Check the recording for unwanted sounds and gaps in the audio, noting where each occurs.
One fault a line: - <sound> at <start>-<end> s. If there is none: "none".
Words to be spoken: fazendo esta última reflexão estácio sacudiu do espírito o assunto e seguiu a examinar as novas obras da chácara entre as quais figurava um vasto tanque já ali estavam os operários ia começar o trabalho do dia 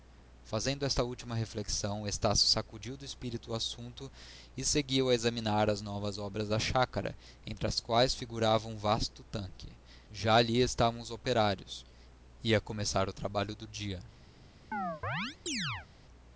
- chirp at 14.7-15.9 s